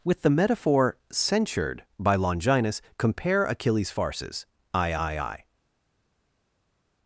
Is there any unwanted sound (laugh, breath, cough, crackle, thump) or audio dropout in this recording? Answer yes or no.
no